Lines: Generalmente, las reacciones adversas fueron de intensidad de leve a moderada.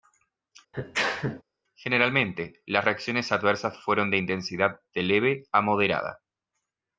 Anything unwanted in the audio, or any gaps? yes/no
yes